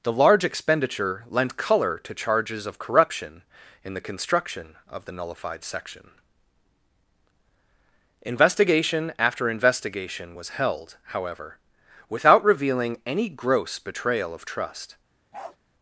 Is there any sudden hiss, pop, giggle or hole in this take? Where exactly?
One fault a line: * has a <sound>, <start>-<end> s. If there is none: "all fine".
* has a bark, 15.3-15.6 s